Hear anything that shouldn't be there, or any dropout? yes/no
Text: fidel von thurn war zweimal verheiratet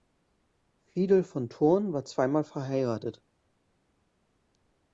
no